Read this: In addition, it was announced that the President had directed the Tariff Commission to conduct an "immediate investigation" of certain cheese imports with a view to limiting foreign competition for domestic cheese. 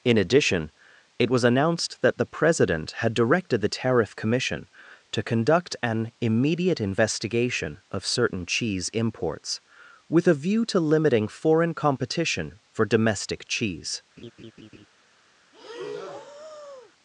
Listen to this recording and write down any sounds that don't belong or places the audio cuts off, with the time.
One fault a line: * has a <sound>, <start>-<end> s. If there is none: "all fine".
* has a laugh, 14.2-14.9 s
* has a breath, 15.5-16.9 s